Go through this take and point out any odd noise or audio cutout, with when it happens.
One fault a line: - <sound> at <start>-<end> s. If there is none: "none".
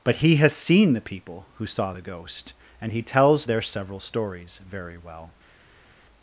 none